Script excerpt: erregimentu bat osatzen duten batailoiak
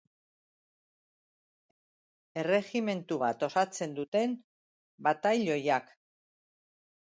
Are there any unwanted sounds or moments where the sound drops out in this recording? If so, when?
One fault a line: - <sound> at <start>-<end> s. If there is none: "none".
none